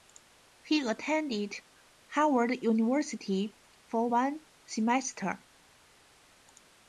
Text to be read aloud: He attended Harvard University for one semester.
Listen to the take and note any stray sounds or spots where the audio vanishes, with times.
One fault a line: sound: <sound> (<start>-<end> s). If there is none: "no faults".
no faults